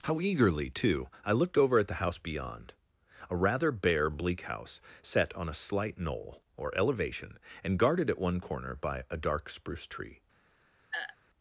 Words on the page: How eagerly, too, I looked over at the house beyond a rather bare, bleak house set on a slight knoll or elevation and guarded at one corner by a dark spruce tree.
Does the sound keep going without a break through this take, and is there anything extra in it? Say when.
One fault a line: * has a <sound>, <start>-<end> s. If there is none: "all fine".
* has a throat clearing, 10.9-11.2 s